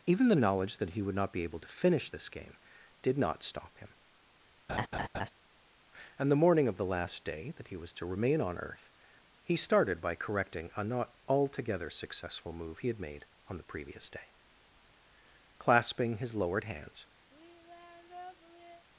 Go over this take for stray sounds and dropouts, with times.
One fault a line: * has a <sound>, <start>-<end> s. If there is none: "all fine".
* has a laugh, 4.7-5.3 s
* has a sigh, 17.3-18.9 s